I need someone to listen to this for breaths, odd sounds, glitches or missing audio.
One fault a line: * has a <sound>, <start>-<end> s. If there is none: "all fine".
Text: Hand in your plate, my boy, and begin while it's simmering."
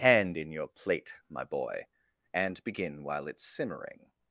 all fine